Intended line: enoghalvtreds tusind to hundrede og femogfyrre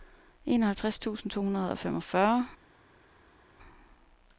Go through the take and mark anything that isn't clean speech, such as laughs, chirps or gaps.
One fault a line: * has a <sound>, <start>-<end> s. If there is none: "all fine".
all fine